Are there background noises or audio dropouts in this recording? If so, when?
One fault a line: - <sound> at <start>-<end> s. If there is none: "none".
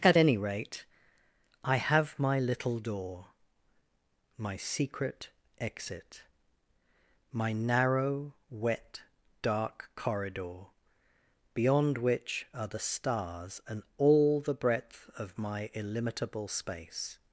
none